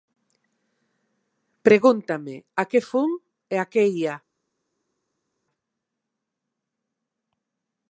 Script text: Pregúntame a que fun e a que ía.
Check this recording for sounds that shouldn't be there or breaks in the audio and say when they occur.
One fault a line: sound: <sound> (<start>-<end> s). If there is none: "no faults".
no faults